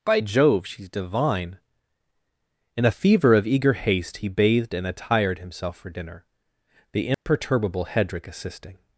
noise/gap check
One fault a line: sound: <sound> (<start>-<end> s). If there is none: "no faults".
sound: dropout (7.1-7.3 s)